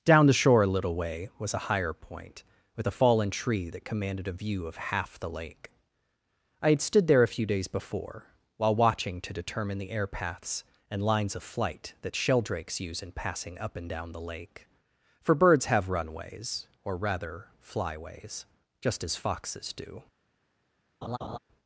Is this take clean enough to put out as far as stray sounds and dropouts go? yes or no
no